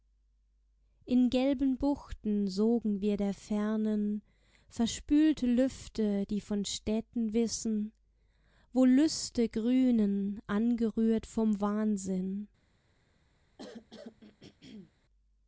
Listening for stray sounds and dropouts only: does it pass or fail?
fail